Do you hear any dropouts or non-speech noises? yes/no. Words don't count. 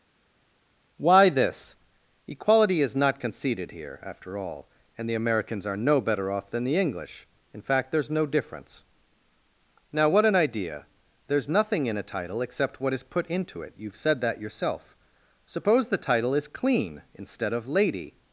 no